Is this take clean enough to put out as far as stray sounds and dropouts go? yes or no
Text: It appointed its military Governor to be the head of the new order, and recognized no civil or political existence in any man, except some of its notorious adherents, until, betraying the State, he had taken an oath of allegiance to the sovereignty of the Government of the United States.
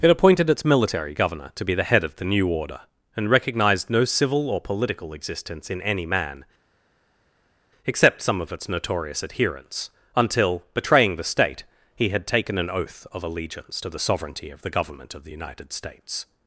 yes